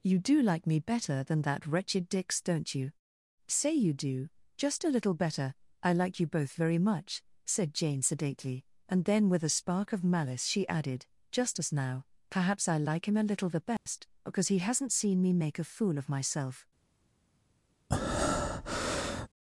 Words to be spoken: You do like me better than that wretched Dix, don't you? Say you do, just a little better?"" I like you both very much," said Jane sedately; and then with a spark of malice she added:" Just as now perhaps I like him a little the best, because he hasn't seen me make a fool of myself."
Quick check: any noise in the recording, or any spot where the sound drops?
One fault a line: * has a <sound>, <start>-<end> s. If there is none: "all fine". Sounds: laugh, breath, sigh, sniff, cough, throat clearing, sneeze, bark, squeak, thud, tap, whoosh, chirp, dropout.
* has a dropout, 13.8-13.9 s
* has a breath, 17.9-19.3 s